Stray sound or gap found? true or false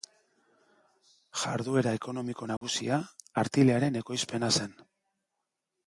true